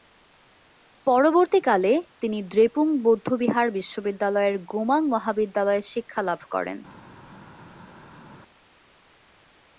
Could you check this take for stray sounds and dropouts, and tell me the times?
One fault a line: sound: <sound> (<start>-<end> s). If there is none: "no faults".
no faults